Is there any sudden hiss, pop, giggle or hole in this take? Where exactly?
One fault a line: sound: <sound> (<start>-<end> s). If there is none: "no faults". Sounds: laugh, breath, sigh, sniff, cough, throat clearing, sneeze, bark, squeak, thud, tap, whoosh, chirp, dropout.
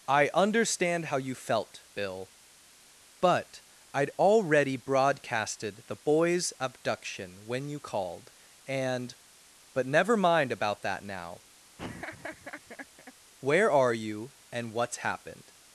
sound: laugh (11.8-13.1 s)